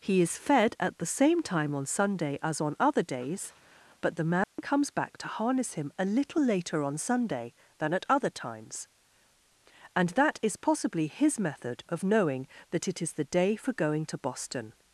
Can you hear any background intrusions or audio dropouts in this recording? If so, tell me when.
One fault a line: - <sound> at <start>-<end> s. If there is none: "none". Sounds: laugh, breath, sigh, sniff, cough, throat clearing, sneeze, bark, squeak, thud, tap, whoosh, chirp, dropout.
- dropout at 4.4-4.6 s